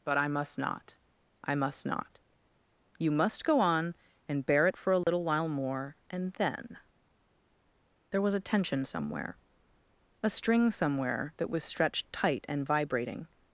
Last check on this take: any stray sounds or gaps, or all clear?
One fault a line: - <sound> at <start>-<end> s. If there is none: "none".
- dropout at 5.0-5.1 s